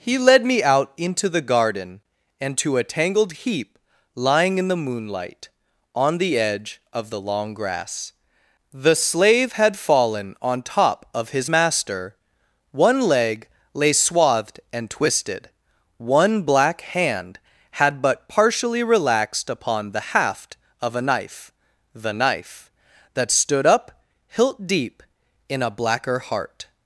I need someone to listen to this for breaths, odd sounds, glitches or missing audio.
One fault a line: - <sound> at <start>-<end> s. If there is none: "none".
none